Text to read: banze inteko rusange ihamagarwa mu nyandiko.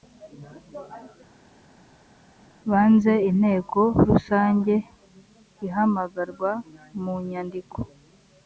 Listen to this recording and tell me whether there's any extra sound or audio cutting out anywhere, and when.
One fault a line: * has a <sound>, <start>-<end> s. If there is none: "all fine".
all fine